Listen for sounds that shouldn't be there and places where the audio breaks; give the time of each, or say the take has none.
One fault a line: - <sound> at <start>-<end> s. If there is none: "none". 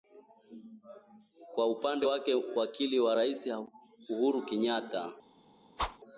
- whoosh at 5.8-6.0 s